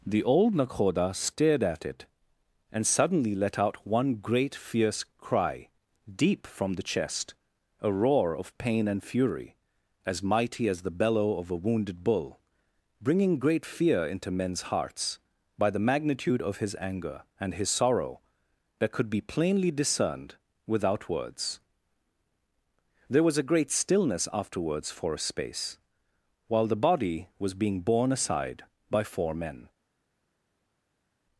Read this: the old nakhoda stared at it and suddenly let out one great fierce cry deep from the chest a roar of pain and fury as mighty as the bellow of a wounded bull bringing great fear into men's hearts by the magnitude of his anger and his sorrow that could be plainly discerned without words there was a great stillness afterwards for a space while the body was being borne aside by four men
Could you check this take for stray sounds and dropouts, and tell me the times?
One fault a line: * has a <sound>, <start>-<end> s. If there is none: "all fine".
all fine